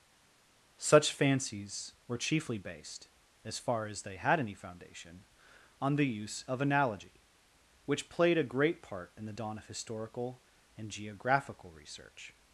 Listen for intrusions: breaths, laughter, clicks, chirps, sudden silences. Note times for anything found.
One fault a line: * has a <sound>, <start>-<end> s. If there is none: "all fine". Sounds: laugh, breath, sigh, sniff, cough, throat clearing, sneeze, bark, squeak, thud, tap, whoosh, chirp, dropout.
all fine